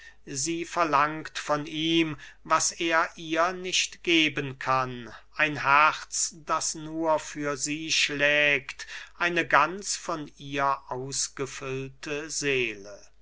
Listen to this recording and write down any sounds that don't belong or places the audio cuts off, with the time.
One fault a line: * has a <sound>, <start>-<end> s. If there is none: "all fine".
all fine